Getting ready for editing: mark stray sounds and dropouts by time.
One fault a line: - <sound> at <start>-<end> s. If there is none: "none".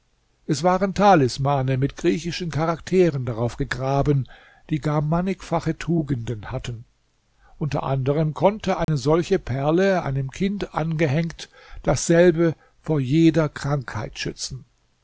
- dropout at 8.8-8.9 s